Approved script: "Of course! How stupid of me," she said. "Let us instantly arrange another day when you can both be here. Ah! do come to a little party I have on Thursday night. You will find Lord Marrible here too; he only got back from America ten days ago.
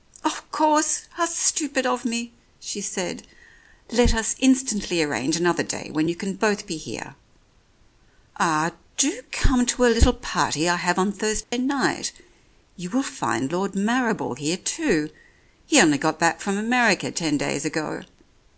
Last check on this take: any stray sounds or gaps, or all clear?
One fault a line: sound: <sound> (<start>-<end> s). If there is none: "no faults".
sound: dropout (11.4-11.5 s)